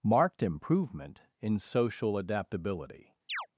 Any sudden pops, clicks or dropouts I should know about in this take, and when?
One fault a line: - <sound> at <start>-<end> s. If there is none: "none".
- chirp at 3.3-3.5 s